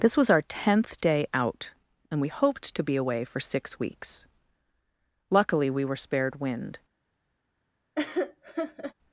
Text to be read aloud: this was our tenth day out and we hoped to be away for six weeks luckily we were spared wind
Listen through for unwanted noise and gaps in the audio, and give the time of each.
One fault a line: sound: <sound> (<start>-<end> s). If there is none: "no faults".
sound: laugh (8.0-8.9 s)